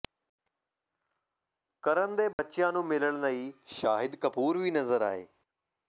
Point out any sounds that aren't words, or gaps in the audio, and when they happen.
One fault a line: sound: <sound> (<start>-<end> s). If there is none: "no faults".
sound: dropout (2.3-2.4 s)